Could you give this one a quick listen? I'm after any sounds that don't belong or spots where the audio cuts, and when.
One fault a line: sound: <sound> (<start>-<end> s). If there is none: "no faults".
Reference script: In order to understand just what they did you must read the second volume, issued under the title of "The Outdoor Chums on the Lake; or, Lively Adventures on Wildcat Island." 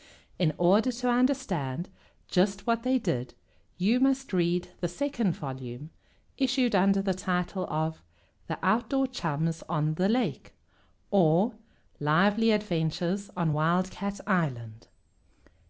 no faults